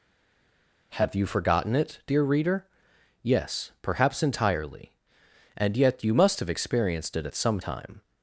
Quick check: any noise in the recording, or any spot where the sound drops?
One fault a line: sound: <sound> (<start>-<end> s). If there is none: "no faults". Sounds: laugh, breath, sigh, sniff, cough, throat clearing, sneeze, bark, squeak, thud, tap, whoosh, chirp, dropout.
no faults